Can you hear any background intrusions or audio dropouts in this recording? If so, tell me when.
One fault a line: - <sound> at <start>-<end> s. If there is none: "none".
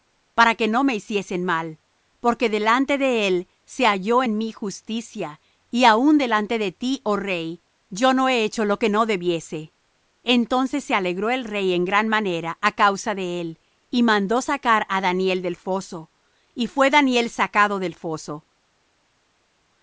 none